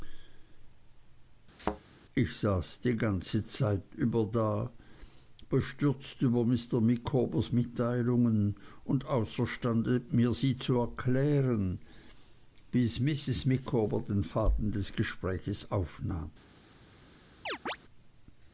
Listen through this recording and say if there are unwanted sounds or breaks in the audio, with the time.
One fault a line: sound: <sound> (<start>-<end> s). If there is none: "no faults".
sound: thud (1.6-1.8 s)
sound: chirp (17.5-17.8 s)